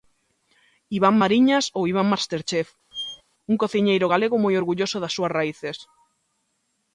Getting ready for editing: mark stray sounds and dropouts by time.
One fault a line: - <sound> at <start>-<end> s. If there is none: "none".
- squeak at 2.9-3.2 s